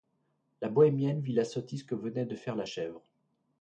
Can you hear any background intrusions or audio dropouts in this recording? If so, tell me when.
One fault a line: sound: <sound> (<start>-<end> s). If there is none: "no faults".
no faults